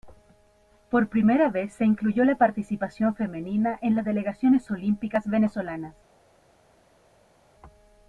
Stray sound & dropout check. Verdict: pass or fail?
pass